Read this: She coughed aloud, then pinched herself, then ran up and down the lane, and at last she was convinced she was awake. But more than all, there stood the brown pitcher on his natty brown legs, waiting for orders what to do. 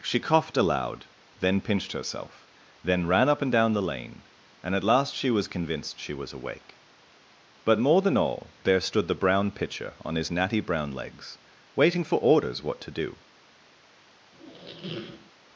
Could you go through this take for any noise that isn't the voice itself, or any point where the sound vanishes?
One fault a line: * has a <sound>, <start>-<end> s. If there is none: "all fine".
* has a squeak, 14.3-15.3 s